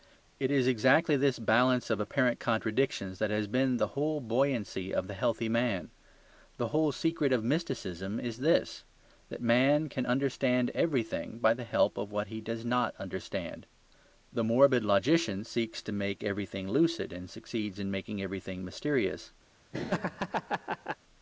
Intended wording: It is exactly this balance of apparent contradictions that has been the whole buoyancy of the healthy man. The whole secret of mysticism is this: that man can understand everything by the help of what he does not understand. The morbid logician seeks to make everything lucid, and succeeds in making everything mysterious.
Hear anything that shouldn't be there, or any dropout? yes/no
yes